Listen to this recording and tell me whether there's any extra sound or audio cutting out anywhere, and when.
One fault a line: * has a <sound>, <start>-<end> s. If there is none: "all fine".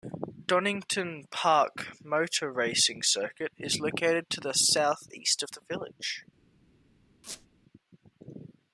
* has a squeak, 7.2-7.5 s